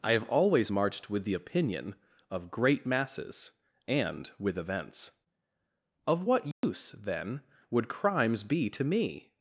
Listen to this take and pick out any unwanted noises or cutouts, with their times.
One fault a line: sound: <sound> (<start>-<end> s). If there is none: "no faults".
sound: dropout (6.5-6.6 s)